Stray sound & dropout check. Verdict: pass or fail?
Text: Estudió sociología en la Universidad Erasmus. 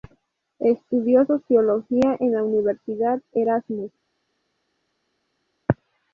pass